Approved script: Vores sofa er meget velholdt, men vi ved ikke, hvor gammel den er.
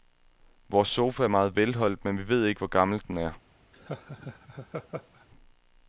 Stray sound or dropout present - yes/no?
yes